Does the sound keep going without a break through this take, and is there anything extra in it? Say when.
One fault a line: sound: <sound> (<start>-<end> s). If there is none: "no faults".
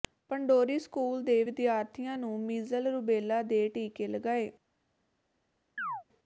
sound: chirp (5.8-6.0 s)